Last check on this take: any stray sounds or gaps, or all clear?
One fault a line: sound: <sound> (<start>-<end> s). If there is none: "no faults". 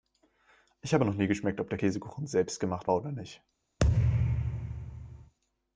sound: thud (3.8-5.3 s)